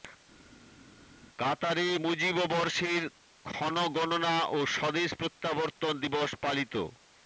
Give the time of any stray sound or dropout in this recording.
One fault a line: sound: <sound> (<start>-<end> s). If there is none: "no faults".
no faults